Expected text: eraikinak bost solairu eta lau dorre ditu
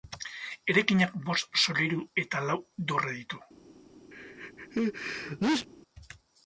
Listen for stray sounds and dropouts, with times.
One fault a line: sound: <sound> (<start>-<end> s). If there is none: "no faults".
sound: sneeze (4.1-5.7 s)